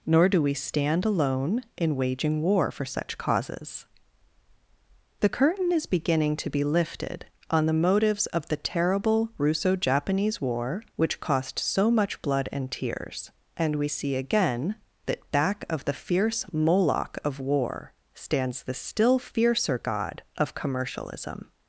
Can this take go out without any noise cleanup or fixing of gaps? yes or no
yes